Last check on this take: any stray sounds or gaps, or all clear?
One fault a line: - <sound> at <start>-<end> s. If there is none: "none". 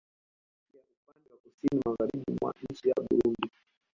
none